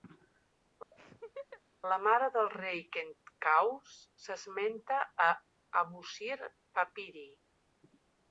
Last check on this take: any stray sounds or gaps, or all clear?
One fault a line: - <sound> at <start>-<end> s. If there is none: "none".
- laugh at 0.9-1.6 s